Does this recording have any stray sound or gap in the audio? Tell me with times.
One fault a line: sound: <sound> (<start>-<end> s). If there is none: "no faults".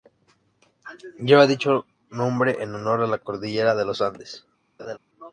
sound: laugh (4.8-5.0 s)